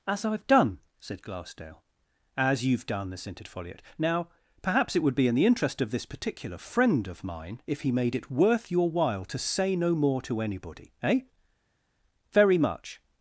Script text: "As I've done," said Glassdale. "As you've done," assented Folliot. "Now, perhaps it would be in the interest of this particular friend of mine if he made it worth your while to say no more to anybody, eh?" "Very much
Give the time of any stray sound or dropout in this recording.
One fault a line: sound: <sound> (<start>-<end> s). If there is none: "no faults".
no faults